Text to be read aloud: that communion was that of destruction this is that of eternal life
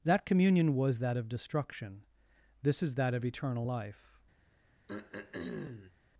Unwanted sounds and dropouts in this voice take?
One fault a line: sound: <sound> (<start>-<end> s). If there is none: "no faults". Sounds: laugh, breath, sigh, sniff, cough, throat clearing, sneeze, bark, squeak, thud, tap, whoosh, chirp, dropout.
sound: throat clearing (4.9-5.9 s)